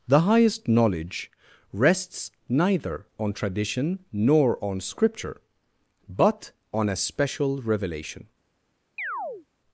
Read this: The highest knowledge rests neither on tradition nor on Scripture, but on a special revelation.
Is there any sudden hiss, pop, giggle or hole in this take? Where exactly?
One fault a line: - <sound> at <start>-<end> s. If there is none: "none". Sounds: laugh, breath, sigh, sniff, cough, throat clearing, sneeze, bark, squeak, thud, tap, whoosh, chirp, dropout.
- chirp at 9.0-9.5 s